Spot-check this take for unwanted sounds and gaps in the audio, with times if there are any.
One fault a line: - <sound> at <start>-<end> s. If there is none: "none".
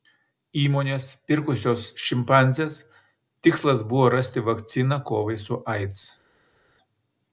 none